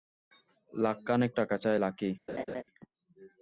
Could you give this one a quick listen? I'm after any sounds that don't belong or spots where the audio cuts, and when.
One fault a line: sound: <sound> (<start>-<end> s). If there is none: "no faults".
sound: laugh (2.3-2.6 s)